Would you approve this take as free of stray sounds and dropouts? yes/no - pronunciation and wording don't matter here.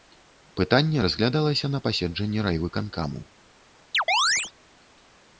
no